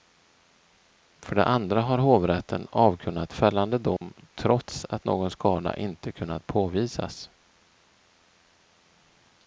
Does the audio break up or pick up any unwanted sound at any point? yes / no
yes